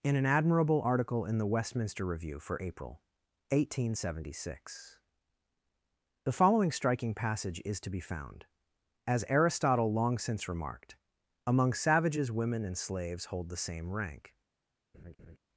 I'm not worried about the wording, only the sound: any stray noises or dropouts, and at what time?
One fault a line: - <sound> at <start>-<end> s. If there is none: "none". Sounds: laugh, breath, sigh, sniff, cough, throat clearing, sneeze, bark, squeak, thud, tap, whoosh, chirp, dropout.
- laugh at 14.9-15.4 s